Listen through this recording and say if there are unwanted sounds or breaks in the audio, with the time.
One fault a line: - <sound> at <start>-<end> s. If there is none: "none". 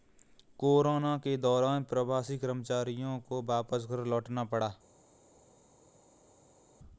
none